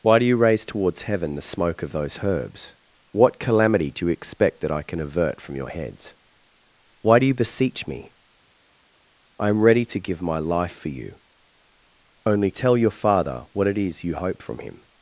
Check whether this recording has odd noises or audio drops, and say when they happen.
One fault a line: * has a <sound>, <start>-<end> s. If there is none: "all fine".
all fine